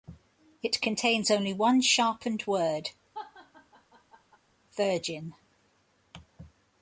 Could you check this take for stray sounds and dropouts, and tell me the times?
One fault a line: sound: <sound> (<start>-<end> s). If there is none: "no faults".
sound: laugh (3.1-4.4 s)